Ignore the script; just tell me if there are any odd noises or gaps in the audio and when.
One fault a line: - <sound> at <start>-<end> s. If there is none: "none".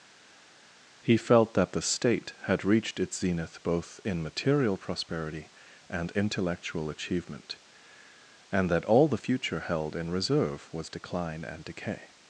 none